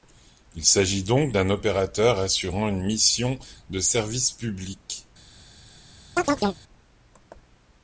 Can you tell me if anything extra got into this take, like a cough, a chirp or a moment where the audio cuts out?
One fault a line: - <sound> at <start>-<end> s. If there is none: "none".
- chirp at 6.2-6.6 s